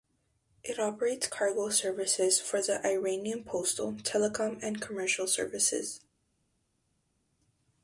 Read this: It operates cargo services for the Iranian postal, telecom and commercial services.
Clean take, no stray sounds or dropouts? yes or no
yes